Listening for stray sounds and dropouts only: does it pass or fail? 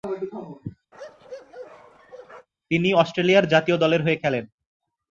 fail